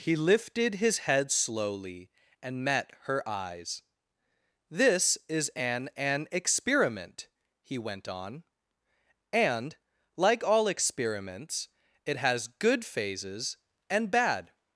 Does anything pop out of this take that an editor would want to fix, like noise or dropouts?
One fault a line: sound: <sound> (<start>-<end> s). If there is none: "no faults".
no faults